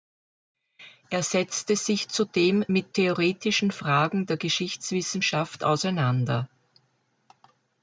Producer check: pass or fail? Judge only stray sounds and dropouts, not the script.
pass